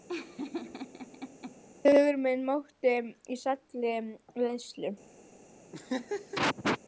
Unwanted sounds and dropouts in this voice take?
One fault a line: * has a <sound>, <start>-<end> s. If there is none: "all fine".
* has a laugh, 0.1-1.6 s
* has a laugh, 5.7-6.8 s